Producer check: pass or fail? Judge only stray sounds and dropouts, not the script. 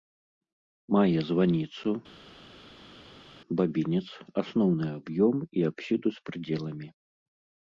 pass